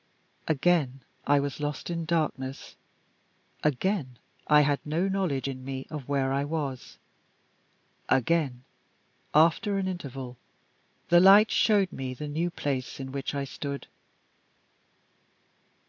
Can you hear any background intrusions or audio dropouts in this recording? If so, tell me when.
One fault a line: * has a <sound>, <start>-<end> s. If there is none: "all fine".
all fine